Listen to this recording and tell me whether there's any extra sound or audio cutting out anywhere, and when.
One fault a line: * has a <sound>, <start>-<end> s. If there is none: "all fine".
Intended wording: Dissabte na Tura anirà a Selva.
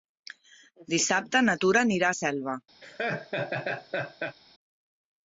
* has a laugh, 2.8-4.4 s